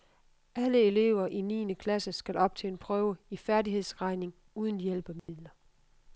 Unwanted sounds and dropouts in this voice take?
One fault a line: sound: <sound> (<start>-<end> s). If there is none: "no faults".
sound: dropout (5.2-5.3 s)